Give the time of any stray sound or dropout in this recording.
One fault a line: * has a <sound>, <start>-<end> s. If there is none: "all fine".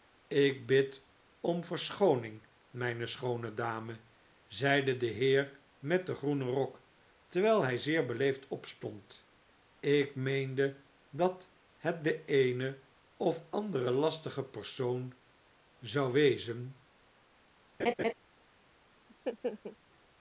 * has a laugh, 17.8-18.1 s
* has a laugh, 19.1-19.8 s